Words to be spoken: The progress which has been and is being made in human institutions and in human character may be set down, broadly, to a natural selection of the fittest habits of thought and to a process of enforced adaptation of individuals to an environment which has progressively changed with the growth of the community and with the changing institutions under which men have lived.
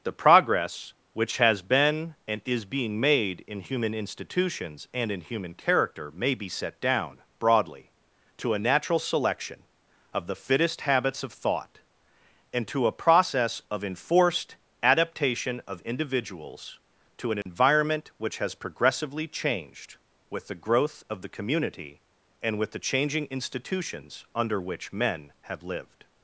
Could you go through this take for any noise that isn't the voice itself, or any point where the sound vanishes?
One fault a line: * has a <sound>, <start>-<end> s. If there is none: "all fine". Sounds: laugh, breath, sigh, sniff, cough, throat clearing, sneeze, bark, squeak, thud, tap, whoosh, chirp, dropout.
* has a dropout, 17.4-17.5 s